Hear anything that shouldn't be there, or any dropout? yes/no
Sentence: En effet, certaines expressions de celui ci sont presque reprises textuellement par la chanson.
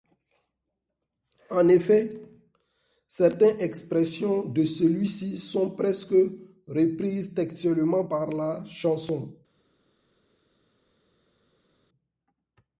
no